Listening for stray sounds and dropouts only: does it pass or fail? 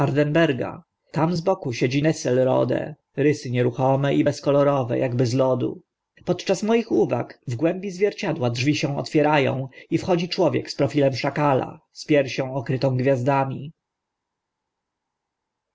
pass